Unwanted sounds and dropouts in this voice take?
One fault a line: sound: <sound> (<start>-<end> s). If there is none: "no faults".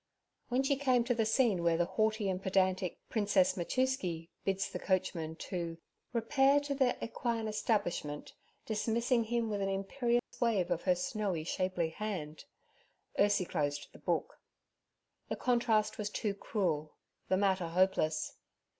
sound: dropout (10.2-10.3 s)